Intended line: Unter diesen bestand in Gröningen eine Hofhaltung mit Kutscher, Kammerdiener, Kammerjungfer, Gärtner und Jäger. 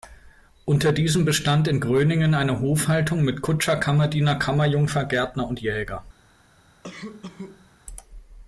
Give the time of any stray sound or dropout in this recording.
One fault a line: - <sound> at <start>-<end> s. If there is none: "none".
- cough at 6.8-7.7 s